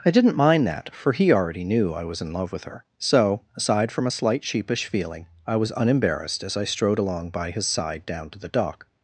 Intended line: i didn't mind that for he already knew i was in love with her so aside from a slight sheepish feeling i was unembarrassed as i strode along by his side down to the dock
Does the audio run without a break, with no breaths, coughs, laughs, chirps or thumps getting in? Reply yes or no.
yes